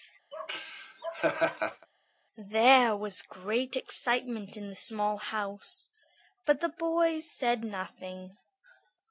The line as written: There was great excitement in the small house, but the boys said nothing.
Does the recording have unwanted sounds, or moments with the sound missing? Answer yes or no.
yes